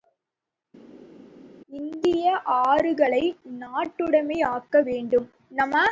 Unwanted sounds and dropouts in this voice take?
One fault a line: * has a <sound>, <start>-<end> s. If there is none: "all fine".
all fine